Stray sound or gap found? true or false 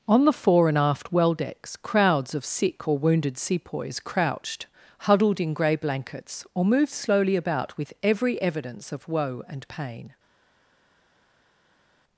false